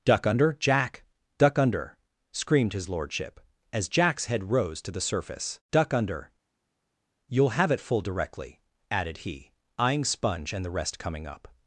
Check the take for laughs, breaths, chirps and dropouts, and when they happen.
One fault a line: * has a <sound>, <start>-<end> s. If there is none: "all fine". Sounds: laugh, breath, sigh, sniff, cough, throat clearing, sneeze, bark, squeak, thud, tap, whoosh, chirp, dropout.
all fine